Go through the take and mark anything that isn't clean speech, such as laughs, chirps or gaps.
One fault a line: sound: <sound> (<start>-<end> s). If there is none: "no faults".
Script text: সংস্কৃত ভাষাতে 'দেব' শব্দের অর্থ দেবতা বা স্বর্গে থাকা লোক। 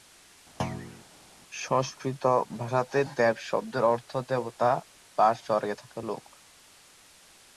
sound: thud (0.6-1.0 s)